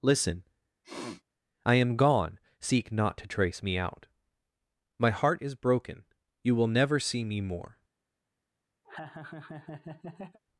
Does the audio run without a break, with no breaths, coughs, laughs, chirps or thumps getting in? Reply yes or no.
no